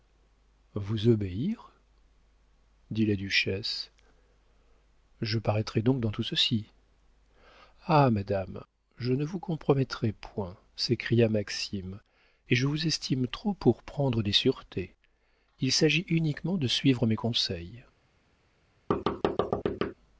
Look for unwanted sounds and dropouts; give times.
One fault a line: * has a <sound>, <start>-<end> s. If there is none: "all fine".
* has a thud, 18.9-19.9 s